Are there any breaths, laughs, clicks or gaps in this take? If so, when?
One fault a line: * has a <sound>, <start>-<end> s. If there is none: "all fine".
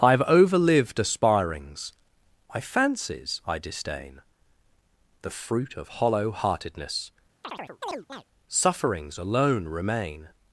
* has a chirp, 7.4-8.2 s